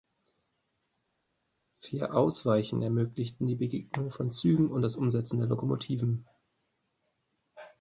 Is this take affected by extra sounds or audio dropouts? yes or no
no